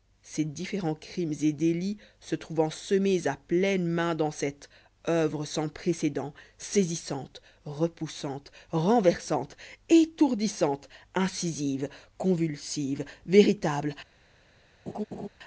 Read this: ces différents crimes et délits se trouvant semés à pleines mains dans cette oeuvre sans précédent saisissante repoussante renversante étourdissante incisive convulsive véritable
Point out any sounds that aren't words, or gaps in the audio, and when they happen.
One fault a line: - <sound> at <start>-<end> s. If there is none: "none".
- laugh at 14.9-15.3 s